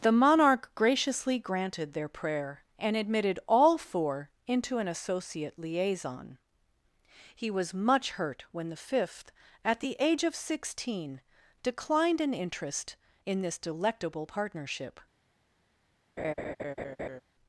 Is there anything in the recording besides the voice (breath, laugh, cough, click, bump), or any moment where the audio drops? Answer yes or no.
yes